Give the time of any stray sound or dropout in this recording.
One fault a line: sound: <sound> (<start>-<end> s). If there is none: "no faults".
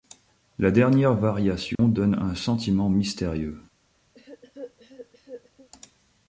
sound: dropout (1.8-1.8 s)
sound: cough (4.1-5.7 s)